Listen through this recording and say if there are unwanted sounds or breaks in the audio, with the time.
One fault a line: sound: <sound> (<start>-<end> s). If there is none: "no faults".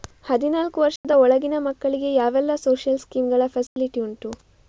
sound: dropout (1.0-1.0 s)
sound: dropout (3.7-3.8 s)